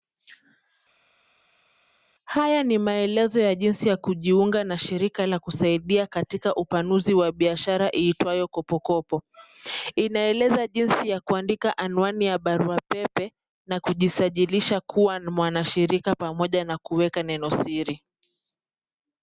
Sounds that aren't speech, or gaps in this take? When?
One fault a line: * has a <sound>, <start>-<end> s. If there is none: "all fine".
all fine